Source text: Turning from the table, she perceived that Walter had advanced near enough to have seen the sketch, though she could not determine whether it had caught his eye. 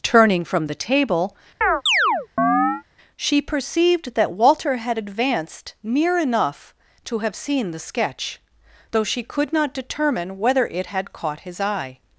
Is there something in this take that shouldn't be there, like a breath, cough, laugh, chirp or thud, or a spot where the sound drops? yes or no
yes